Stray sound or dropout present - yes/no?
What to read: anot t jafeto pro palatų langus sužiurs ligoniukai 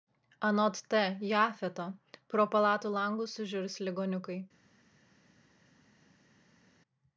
no